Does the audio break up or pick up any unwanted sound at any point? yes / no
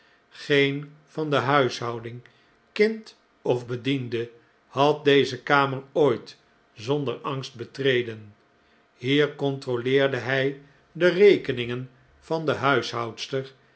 no